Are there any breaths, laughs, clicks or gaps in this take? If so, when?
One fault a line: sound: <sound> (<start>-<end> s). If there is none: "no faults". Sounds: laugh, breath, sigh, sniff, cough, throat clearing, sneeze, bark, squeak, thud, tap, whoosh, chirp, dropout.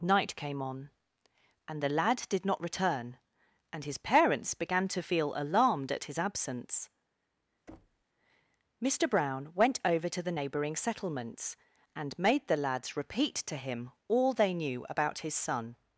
sound: thud (7.7-8.0 s)